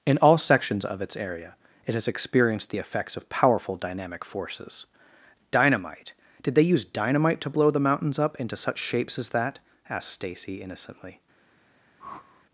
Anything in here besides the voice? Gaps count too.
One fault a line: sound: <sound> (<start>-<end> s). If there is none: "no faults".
sound: whoosh (12.0-12.4 s)